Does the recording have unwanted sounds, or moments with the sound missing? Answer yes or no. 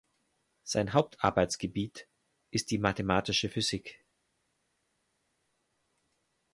no